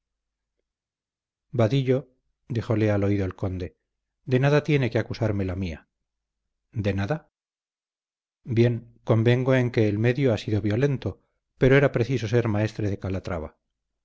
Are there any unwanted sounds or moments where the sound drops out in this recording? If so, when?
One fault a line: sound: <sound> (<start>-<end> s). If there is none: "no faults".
no faults